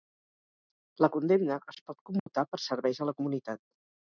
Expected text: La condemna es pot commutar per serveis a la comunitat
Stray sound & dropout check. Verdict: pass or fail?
fail